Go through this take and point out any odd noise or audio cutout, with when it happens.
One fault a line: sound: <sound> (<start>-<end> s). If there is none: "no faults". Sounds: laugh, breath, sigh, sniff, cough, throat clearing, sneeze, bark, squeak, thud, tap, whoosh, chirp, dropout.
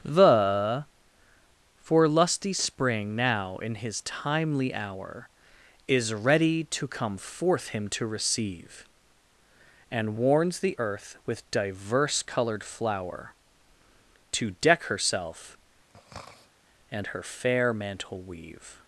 sound: throat clearing (15.9-16.5 s)